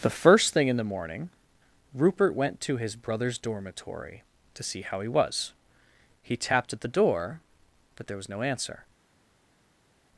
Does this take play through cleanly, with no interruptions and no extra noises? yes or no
yes